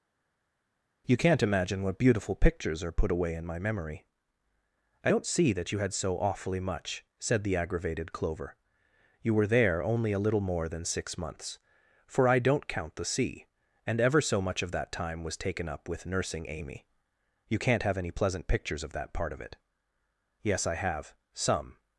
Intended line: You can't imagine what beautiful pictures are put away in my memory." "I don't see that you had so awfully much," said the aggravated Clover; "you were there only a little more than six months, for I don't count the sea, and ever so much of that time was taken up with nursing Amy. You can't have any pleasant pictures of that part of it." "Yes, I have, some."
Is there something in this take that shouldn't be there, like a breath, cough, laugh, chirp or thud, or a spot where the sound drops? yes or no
no